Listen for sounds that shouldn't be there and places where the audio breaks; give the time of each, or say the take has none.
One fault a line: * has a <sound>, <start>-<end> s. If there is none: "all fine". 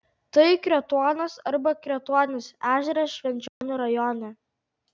* has a dropout, 3.5-3.6 s